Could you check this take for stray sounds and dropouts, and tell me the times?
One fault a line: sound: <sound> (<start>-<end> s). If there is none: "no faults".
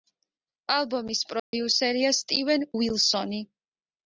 sound: dropout (1.4-1.5 s)